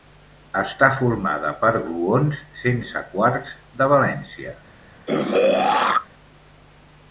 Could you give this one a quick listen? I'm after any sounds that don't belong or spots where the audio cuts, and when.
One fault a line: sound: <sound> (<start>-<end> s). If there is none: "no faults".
sound: throat clearing (5.1-6.1 s)